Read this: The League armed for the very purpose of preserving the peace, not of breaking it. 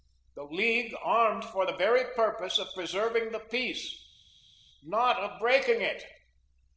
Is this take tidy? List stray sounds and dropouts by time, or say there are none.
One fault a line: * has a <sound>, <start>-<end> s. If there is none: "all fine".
all fine